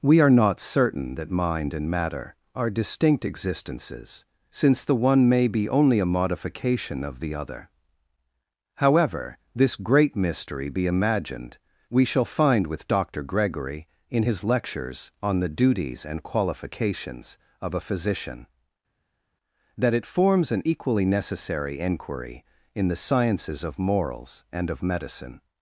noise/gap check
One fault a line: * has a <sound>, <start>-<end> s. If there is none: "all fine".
all fine